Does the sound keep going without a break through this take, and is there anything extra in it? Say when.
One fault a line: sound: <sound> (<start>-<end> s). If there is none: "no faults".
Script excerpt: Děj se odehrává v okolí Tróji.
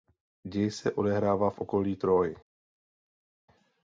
no faults